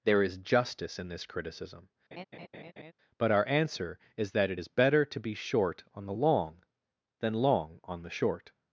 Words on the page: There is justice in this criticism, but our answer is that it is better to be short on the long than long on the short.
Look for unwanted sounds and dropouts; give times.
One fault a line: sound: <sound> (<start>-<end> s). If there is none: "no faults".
sound: laugh (2.1-2.9 s)